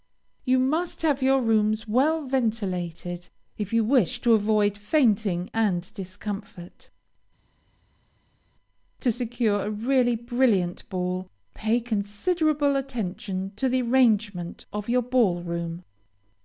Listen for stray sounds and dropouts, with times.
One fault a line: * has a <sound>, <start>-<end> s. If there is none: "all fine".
all fine